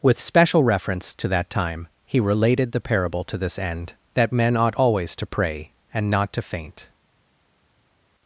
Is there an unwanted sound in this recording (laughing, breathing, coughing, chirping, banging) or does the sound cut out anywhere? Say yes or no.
no